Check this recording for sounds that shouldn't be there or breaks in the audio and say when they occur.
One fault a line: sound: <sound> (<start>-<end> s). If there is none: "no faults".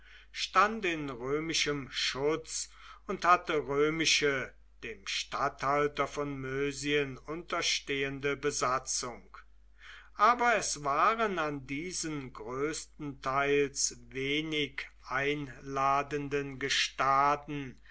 no faults